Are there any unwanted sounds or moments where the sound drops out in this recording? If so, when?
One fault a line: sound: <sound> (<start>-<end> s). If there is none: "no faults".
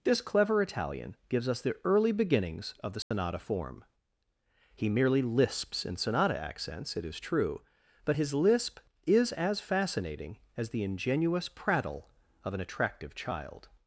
sound: dropout (3.0-3.1 s)